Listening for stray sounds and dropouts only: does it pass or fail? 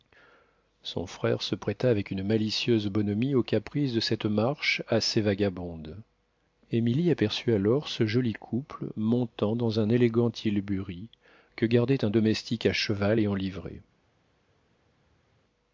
pass